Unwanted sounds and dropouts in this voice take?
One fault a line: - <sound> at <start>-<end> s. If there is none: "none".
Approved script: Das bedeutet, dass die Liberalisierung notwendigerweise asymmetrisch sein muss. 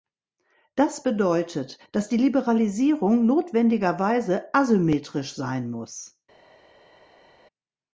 none